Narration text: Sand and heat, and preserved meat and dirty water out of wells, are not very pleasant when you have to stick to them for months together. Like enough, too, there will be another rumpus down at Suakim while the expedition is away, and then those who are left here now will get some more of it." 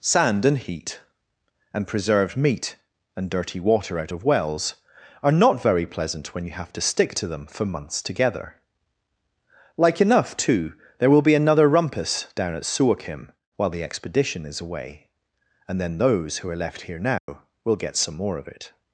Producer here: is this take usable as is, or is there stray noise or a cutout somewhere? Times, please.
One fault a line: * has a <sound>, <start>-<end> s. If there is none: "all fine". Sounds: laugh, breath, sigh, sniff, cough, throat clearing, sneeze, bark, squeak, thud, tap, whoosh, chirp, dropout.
* has a dropout, 17.2-17.3 s